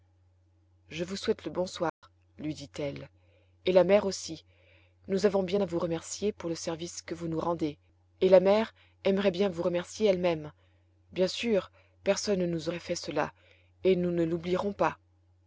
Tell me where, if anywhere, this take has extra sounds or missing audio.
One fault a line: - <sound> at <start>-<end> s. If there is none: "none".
- dropout at 1.9-2.0 s